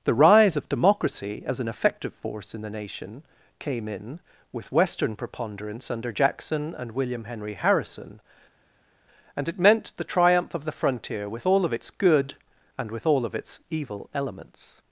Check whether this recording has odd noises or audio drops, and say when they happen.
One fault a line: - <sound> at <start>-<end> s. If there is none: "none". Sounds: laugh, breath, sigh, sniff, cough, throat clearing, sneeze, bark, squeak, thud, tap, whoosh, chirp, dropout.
none